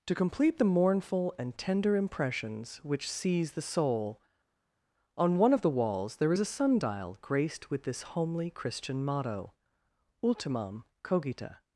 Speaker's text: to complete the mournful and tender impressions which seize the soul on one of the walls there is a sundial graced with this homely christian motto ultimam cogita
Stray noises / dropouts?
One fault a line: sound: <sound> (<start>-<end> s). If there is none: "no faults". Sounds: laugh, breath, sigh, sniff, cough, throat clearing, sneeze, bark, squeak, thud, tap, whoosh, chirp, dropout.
no faults